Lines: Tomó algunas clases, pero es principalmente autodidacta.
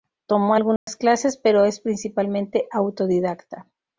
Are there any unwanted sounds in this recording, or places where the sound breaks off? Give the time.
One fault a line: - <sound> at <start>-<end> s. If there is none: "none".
- dropout at 0.8-0.9 s